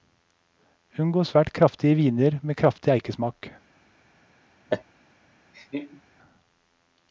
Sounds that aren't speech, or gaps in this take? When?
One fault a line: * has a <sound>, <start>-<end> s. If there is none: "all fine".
* has a laugh, 4.7-4.8 s
* has a laugh, 5.5-6.0 s